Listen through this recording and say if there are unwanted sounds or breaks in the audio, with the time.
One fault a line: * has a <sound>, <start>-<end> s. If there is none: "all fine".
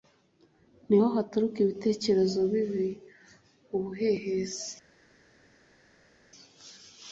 all fine